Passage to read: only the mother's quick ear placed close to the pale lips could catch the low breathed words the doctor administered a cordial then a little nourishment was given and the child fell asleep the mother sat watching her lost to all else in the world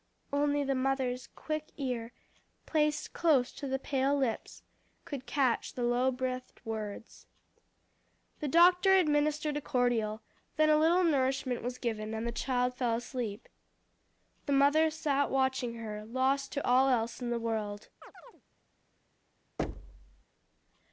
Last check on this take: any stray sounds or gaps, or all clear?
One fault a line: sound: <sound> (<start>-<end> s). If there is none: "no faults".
sound: chirp (18.0-18.4 s)
sound: thud (19.6-20.2 s)